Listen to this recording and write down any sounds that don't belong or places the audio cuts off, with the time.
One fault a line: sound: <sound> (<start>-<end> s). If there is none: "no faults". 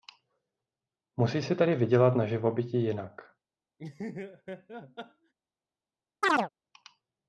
sound: laugh (3.8-5.3 s)
sound: chirp (6.2-6.5 s)